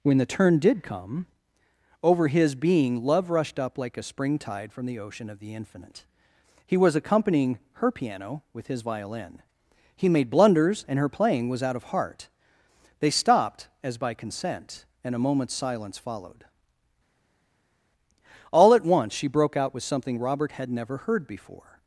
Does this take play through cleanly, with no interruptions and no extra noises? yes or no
yes